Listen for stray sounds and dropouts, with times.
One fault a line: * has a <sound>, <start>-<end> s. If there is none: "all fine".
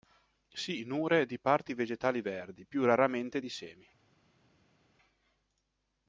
all fine